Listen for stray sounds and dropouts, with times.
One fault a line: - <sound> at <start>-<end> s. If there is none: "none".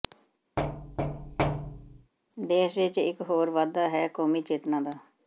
- thud at 0.6-2.1 s